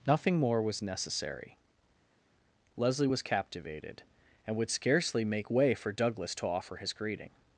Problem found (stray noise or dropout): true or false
false